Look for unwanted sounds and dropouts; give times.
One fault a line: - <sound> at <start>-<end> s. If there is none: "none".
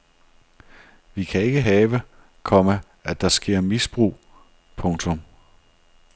none